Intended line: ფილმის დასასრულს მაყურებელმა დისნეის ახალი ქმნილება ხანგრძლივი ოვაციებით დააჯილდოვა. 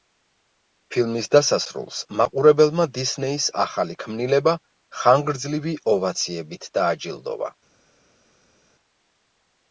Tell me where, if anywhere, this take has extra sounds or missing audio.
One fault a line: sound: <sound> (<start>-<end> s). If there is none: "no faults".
no faults